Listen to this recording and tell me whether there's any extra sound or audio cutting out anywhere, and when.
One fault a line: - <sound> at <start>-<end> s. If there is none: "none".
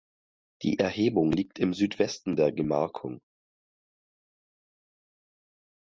none